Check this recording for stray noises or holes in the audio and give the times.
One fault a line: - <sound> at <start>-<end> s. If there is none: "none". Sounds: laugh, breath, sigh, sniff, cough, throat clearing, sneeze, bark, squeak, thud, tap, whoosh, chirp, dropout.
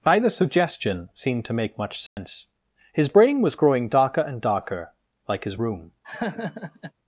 - dropout at 2.1-2.2 s
- laugh at 6.0-6.9 s